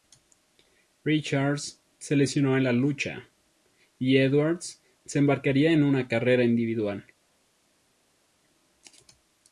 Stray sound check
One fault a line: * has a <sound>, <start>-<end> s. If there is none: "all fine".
all fine